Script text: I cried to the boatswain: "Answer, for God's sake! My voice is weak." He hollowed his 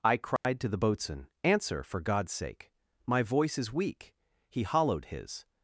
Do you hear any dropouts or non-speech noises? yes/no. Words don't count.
yes